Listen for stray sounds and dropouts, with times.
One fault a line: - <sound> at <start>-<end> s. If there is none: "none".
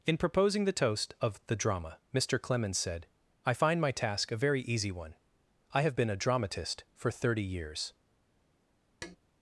- tap at 9.0-9.2 s